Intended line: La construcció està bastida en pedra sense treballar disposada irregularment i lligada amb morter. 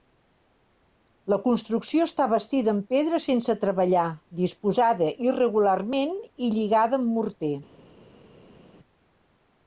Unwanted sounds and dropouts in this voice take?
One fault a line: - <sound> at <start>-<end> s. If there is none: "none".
none